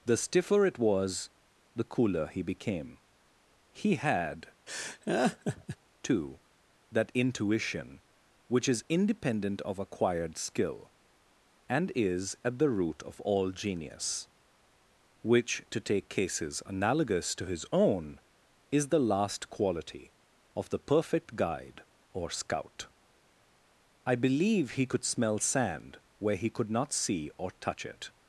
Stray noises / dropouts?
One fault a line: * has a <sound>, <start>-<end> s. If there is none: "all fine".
* has a laugh, 4.7-5.8 s